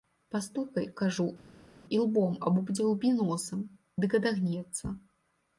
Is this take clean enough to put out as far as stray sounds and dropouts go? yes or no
yes